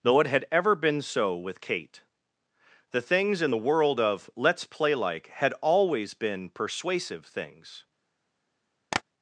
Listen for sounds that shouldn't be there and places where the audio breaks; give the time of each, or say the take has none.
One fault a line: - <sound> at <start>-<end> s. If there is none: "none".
- tap at 8.9-9.0 s